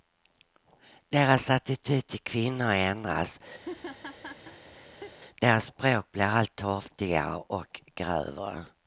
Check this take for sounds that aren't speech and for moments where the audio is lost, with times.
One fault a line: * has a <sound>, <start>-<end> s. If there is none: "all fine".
* has a laugh, 3.6-5.1 s